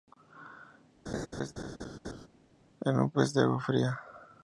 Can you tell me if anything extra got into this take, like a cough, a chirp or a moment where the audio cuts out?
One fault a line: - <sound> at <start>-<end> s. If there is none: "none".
- laugh at 1.1-2.3 s